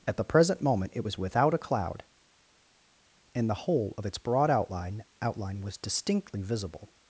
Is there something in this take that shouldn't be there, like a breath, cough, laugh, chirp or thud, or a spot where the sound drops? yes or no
no